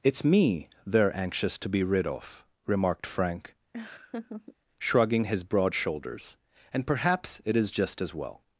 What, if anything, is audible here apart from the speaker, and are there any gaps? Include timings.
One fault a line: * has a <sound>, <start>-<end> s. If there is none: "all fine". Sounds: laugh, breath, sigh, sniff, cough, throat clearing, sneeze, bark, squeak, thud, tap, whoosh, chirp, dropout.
* has a laugh, 3.7-4.6 s